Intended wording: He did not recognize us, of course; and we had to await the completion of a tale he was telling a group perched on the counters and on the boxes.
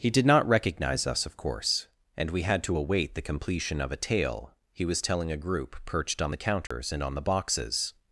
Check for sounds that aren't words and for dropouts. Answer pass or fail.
fail